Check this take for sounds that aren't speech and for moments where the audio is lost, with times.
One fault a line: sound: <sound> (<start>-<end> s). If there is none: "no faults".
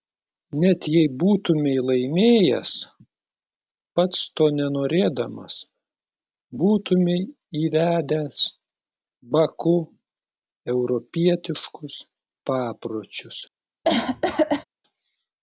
sound: cough (13.8-14.6 s)